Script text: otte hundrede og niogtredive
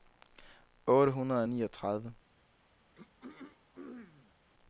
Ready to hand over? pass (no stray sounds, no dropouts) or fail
fail